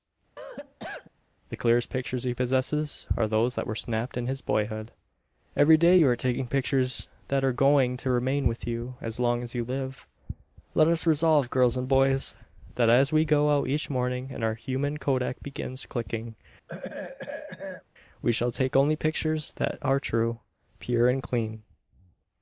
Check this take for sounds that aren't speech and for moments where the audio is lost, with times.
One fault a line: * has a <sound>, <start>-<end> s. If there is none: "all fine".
* has a cough, 0.4-1.1 s
* has a throat clearing, 16.7-17.8 s